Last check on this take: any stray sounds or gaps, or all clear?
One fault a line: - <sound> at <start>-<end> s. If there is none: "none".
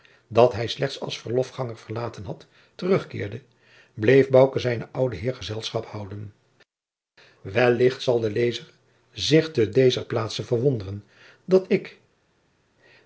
none